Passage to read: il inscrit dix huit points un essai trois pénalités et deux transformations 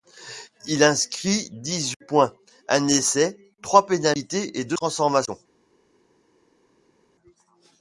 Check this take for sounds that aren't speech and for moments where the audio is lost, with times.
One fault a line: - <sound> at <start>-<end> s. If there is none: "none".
none